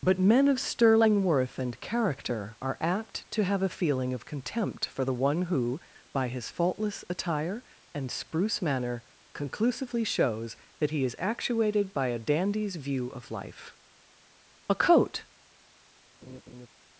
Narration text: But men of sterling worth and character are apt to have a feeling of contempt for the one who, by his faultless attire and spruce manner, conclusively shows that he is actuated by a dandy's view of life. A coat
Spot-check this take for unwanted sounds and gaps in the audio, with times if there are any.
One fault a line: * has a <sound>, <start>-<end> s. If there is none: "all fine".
* has a laugh, 16.2-16.7 s